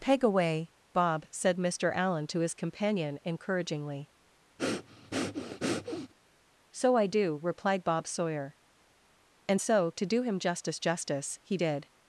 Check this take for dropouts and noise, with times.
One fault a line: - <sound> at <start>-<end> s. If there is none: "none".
- breath at 4.6-6.1 s